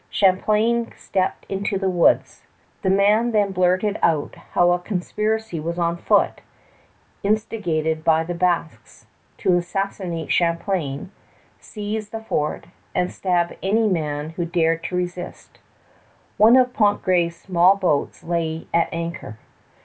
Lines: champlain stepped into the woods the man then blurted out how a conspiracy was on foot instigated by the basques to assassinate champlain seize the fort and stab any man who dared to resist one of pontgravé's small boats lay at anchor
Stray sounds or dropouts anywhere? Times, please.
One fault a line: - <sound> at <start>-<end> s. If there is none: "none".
none